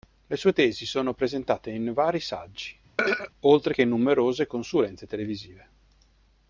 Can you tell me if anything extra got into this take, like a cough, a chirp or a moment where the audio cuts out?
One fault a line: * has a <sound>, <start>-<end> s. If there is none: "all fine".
* has a throat clearing, 3.0-3.3 s